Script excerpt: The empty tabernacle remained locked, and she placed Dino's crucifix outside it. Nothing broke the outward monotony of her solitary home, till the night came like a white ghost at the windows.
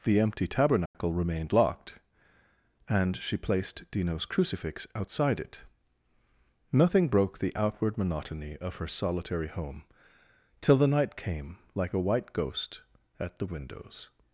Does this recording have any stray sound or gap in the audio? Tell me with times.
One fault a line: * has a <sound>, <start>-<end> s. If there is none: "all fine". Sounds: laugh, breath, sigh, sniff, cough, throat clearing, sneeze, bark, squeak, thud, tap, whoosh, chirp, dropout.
* has a dropout, 0.9-0.9 s